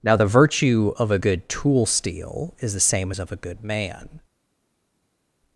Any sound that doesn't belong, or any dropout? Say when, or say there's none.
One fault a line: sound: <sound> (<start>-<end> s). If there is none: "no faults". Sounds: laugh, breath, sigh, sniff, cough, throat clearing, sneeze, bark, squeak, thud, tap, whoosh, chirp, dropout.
no faults